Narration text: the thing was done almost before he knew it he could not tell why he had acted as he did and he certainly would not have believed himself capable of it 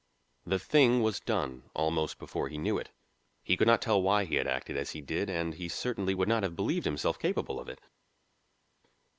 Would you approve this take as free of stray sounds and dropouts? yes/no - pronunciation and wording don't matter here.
yes